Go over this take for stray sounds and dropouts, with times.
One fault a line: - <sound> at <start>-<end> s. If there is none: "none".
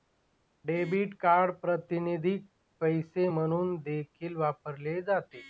none